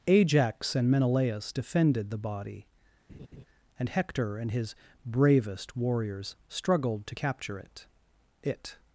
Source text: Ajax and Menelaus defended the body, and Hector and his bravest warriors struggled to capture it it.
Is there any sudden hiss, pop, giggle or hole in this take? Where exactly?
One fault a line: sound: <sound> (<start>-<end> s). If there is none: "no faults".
sound: laugh (3.1-3.4 s)